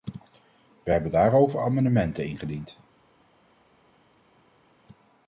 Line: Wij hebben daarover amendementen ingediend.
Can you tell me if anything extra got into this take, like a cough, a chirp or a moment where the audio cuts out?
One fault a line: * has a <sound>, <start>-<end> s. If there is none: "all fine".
all fine